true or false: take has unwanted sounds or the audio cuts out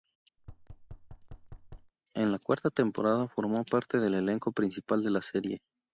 true